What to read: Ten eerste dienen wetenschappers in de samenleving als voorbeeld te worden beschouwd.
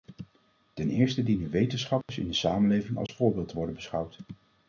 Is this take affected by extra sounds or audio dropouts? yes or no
yes